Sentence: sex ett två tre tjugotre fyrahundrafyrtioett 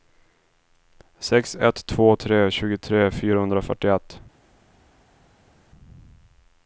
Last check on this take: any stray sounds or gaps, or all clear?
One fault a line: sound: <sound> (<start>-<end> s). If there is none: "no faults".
no faults